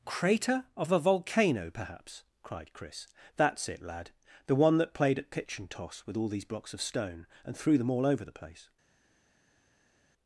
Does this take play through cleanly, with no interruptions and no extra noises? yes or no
yes